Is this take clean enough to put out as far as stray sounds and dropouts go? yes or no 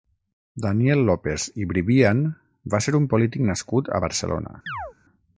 no